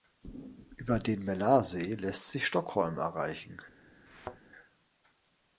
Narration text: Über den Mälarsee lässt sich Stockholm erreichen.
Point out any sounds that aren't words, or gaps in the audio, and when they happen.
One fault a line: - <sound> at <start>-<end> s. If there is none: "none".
- thud at 4.1-4.4 s